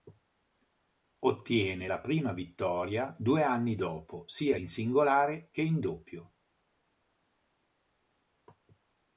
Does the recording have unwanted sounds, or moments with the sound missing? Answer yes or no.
no